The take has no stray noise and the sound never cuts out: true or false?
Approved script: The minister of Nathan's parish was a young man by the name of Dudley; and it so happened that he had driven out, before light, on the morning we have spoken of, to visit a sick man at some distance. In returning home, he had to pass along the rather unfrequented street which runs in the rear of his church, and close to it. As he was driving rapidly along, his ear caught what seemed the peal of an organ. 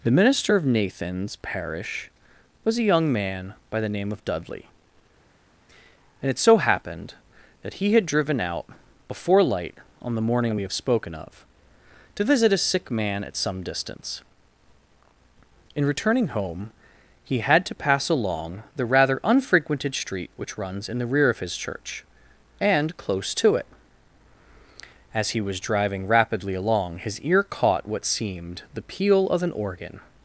true